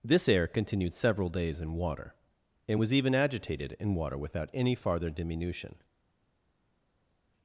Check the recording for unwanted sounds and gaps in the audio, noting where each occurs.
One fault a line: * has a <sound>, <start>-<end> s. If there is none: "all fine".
all fine